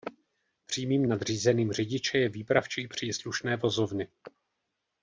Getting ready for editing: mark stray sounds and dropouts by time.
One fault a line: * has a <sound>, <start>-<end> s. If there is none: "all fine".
all fine